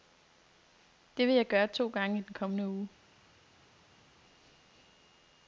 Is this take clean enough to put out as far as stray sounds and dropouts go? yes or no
yes